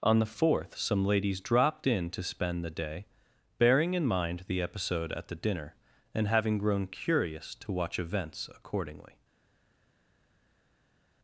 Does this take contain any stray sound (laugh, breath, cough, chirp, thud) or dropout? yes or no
no